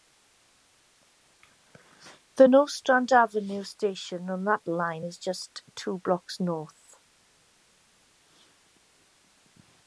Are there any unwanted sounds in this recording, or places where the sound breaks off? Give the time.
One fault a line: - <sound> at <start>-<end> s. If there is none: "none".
none